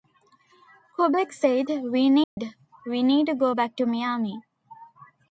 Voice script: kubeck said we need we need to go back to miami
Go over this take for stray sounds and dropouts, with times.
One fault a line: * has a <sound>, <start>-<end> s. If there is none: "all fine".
* has a dropout, 2.2-2.4 s